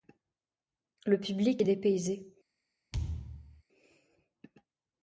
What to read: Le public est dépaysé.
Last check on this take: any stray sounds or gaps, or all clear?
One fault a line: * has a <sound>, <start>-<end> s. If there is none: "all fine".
* has a thud, 2.9-3.6 s